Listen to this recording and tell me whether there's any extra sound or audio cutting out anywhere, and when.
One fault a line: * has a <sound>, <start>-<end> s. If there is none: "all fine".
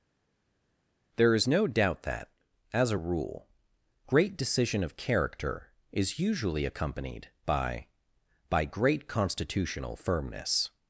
all fine